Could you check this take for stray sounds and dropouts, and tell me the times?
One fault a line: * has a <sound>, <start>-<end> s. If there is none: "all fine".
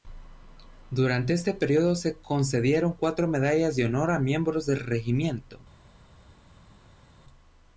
all fine